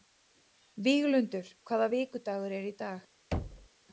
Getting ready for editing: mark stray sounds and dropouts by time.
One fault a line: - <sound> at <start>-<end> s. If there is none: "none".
- thud at 3.3-3.7 s